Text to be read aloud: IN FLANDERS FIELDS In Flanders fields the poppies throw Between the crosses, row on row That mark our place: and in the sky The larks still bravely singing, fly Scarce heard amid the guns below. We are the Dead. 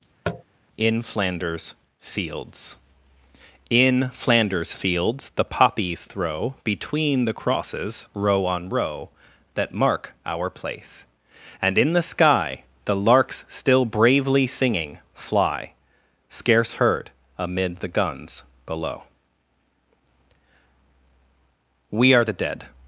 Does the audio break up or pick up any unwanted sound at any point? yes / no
yes